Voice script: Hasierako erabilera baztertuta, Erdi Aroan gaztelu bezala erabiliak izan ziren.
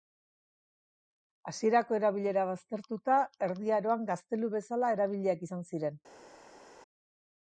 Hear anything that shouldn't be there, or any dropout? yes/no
no